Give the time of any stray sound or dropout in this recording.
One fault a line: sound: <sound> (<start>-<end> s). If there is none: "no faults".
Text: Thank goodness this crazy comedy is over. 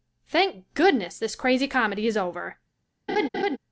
sound: laugh (3.1-3.6 s)